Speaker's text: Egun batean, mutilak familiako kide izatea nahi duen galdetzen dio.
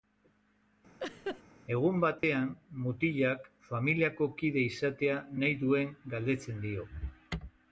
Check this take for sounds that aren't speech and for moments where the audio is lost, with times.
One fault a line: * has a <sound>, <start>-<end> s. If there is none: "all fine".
* has a laugh, 1.0-1.4 s
* has a dropout, 2.2-2.2 s